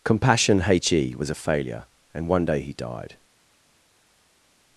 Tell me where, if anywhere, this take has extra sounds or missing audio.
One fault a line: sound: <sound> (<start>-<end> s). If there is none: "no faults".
no faults